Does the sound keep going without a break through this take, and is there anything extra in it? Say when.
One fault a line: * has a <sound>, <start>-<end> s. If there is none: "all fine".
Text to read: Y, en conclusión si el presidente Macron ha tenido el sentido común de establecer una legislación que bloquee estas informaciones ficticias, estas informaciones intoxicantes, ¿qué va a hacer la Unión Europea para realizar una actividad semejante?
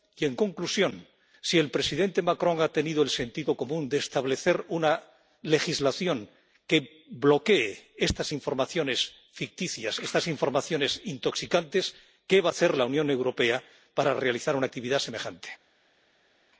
all fine